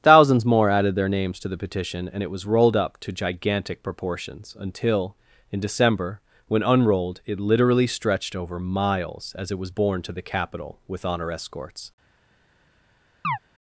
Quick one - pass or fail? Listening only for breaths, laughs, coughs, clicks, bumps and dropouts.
fail